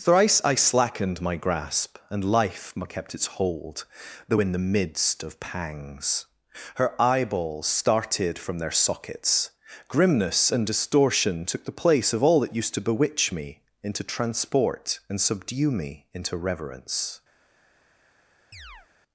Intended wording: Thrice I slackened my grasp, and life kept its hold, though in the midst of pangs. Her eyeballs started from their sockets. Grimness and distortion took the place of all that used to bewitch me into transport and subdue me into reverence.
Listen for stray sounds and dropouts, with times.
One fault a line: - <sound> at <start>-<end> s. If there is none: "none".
- chirp at 18.5-18.9 s